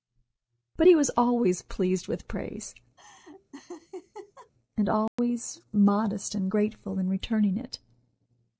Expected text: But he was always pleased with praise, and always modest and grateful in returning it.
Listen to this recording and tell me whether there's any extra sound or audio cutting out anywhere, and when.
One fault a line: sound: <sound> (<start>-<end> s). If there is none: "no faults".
sound: laugh (3.0-4.5 s)
sound: dropout (5.1-5.2 s)